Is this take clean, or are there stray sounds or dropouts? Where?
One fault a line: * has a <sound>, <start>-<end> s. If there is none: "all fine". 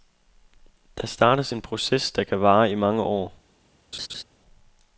* has a laugh, 3.9-4.2 s